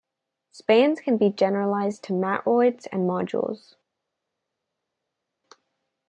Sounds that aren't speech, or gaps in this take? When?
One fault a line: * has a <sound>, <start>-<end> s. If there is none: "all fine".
all fine